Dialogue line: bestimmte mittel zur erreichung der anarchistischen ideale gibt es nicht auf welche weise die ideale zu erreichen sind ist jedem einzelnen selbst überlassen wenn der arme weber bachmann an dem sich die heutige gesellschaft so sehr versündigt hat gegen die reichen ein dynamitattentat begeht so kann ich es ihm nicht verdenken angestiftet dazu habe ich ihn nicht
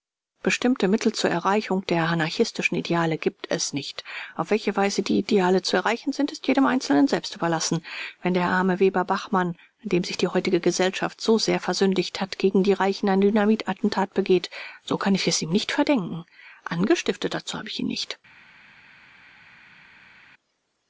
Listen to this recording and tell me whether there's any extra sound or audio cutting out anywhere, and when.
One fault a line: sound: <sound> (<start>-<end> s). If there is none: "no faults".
no faults